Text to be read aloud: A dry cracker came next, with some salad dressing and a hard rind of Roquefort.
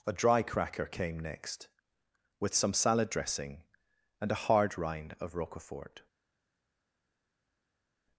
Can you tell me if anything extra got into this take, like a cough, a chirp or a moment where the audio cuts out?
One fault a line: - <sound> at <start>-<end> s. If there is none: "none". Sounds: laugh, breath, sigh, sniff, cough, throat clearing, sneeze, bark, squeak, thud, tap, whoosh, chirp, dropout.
none